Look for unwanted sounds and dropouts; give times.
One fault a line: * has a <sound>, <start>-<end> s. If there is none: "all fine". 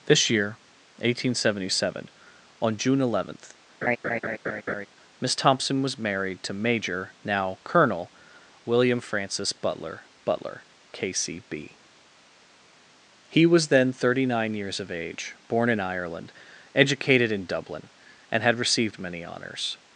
* has a laugh, 3.8-4.9 s